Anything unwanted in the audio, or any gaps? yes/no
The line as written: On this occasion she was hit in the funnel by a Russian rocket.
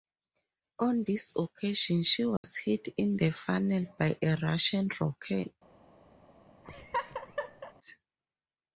yes